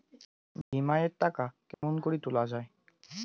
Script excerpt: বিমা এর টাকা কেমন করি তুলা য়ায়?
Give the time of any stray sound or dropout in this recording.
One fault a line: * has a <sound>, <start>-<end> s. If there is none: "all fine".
* has a dropout, 0.6-0.7 s
* has a dropout, 1.7-1.8 s